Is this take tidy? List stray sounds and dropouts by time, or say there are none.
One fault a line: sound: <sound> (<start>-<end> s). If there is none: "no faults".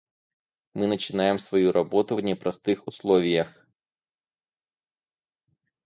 no faults